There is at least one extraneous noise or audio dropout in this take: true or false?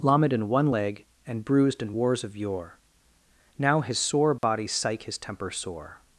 true